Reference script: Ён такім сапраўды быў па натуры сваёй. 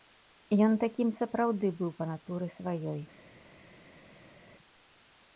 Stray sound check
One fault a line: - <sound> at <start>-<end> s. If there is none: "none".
none